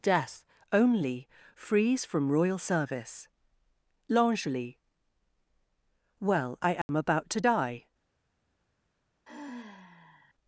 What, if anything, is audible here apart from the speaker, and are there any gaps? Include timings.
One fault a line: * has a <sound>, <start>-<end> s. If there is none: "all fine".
* has a dropout, 6.8-6.9 s
* has a sigh, 9.2-10.3 s